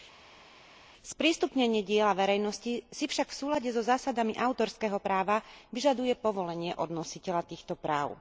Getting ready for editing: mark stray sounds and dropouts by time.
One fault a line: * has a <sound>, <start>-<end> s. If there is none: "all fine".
all fine